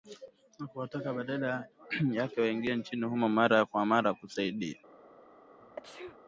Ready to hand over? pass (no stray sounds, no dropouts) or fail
fail